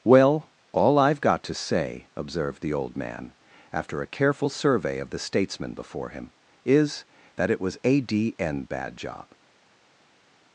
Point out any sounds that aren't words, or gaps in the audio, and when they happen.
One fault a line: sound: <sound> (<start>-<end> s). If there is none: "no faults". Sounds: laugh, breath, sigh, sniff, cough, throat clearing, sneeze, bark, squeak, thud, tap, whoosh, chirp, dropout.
no faults